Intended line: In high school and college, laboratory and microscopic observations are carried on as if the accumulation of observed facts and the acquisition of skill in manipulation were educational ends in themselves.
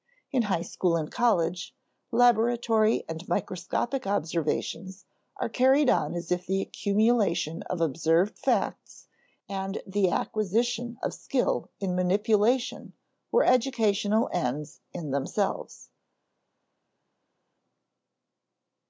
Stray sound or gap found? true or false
false